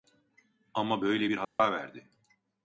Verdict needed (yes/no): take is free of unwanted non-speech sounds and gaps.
no